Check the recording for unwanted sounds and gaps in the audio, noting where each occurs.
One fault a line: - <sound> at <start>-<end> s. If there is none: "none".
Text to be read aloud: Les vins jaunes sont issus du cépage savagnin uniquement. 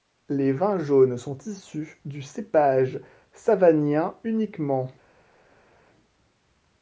none